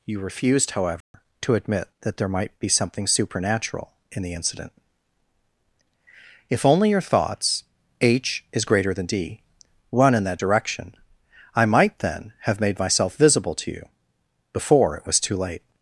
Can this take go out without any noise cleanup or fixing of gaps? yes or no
no